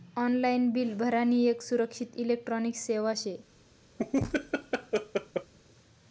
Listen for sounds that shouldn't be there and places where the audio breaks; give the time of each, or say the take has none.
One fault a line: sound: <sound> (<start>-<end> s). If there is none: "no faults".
sound: laugh (4.0-5.5 s)